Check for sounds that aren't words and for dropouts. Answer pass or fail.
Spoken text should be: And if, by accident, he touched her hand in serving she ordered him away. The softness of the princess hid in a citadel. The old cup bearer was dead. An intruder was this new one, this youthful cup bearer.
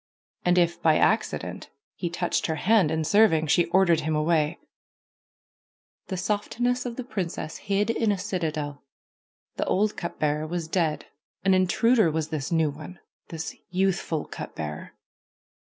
pass